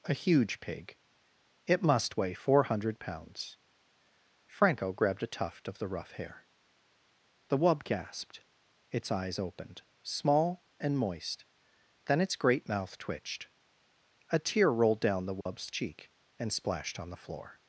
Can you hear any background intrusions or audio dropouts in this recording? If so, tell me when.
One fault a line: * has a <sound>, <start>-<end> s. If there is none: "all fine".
* has a dropout, 15.4-15.5 s